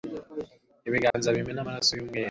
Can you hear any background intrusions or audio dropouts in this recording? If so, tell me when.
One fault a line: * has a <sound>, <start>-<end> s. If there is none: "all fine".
* has a dropout, 1.1-1.1 s